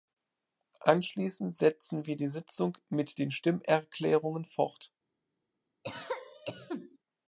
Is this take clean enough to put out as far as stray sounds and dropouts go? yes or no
no